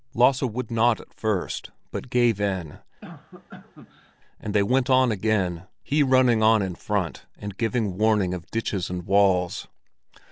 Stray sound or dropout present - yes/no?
yes